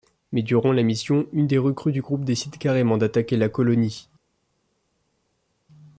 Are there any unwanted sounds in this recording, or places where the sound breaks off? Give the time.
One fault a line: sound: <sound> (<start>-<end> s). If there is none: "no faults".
no faults